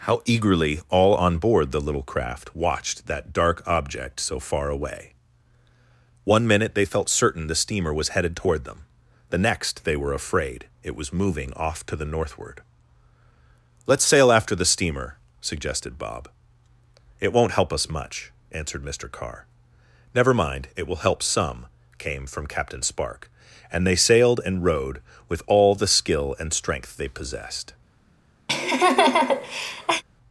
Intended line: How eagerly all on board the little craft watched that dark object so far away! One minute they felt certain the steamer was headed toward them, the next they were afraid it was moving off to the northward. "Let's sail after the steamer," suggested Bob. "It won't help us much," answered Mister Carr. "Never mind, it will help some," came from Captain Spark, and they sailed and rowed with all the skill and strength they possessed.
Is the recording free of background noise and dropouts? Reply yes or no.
no